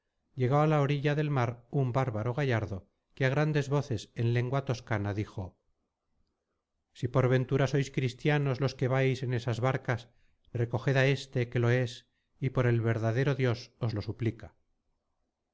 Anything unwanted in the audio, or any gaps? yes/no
no